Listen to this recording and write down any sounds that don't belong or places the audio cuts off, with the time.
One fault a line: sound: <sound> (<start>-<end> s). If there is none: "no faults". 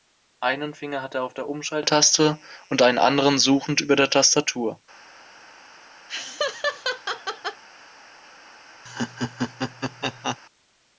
sound: laugh (6.1-7.6 s)
sound: laugh (8.9-10.4 s)